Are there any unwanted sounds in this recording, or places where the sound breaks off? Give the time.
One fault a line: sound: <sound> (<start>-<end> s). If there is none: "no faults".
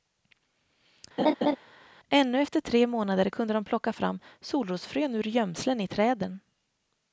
sound: laugh (1.2-1.6 s)